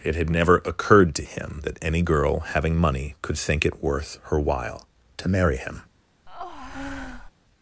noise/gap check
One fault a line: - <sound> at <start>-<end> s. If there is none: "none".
- breath at 6.3-7.3 s